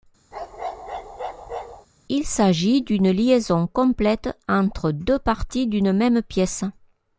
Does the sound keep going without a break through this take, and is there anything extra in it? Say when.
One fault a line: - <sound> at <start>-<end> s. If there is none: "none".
- bark at 0.3-1.9 s